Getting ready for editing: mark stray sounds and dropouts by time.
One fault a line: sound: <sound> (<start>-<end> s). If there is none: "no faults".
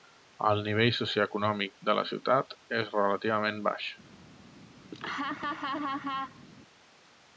sound: laugh (4.9-6.4 s)